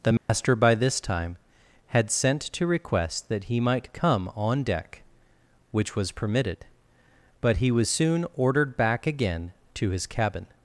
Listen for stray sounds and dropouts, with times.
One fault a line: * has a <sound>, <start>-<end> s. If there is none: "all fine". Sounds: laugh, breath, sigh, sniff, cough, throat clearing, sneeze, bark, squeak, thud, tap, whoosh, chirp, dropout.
* has a dropout, 0.2-0.3 s